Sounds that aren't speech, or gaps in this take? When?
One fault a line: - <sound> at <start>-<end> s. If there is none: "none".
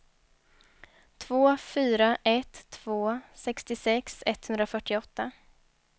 none